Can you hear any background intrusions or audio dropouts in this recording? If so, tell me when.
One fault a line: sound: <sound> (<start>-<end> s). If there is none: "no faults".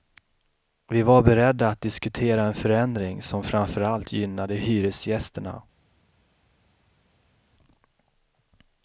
no faults